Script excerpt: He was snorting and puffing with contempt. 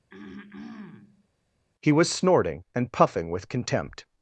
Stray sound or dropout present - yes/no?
yes